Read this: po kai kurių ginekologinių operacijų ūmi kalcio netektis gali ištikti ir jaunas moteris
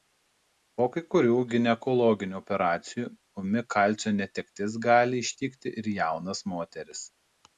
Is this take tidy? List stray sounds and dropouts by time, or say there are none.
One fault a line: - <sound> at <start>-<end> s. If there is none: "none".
none